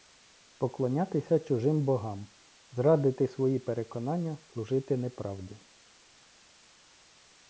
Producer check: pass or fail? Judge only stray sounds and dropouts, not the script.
pass